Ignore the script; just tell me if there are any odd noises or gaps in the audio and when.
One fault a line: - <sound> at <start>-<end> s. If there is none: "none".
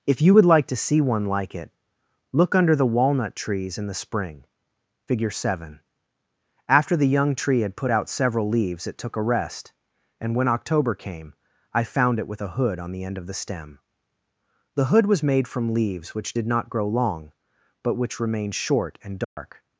- dropout at 19.2-19.4 s